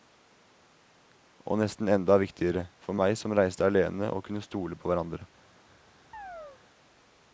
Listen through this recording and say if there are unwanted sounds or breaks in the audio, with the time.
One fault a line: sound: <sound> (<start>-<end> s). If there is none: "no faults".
sound: chirp (6.1-6.6 s)